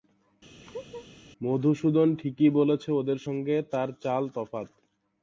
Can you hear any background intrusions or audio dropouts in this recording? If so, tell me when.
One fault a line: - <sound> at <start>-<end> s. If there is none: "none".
- laugh at 0.6-1.1 s